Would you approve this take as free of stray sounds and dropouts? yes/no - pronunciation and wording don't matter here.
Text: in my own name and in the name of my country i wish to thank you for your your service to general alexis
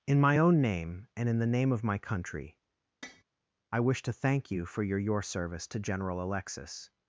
no